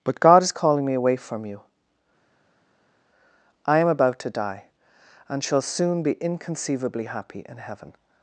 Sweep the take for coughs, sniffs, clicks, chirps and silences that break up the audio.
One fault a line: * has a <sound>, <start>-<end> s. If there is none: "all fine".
all fine